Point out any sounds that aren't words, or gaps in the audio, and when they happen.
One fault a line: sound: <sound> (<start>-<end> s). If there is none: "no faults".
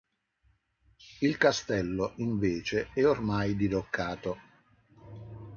no faults